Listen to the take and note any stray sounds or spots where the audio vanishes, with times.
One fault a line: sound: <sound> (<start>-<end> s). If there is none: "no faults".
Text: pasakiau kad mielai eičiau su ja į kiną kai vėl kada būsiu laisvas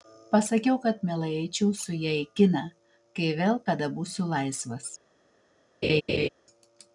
sound: laugh (5.8-6.3 s)